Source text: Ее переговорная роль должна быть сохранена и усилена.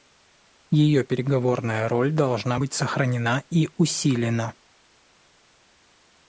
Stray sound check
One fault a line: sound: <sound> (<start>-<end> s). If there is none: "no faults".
no faults